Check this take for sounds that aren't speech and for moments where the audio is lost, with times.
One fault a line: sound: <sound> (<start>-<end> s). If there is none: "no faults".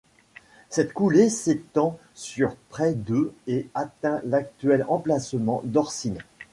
no faults